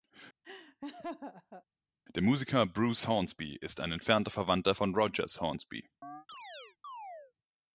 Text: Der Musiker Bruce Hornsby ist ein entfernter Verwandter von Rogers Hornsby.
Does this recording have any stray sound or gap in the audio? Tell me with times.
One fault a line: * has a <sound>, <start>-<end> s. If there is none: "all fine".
* has a laugh, 0.4-1.6 s
* has a chirp, 6.0-7.3 s